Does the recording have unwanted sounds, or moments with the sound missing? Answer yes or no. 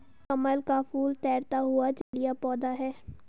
yes